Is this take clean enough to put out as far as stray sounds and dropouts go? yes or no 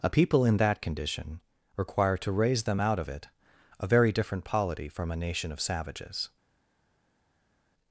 yes